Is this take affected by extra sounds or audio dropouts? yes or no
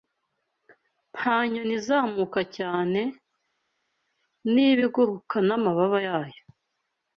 no